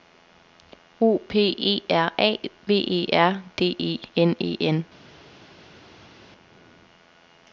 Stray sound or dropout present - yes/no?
no